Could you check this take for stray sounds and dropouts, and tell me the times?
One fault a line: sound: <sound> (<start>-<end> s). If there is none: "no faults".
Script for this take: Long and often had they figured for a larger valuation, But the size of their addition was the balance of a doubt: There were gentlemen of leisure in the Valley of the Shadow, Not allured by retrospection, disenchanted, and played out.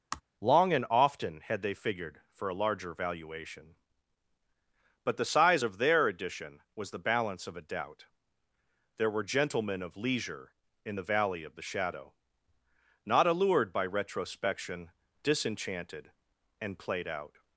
sound: sigh (0.1-0.2 s)